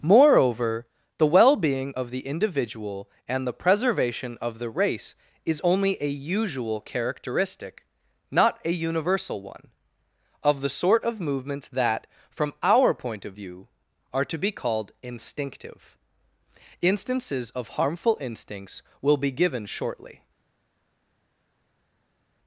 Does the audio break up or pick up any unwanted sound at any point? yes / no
no